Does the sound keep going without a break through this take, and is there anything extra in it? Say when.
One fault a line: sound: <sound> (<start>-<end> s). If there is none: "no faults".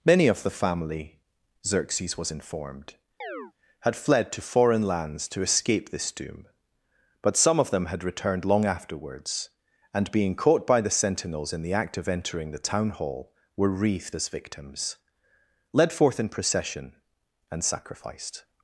sound: chirp (3.2-3.5 s)